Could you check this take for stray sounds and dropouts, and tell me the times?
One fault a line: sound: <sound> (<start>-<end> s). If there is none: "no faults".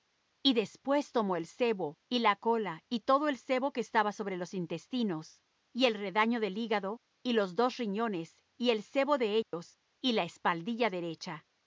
sound: dropout (9.4-9.5 s)